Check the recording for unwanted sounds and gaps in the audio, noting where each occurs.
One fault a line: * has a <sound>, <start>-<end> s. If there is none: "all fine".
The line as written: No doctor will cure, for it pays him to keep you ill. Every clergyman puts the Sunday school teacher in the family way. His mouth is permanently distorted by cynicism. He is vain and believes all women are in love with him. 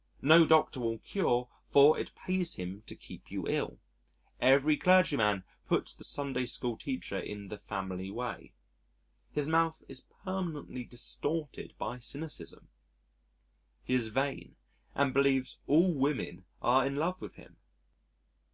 all fine